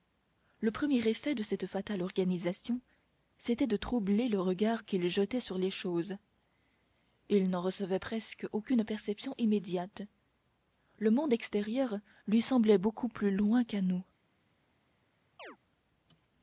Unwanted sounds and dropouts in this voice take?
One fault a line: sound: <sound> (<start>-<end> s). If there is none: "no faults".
sound: chirp (15.4-15.6 s)